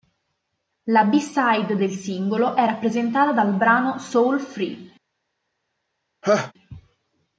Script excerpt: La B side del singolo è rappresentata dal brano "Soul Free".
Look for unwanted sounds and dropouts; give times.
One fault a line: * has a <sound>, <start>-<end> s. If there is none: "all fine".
* has a laugh, 6.2-6.5 s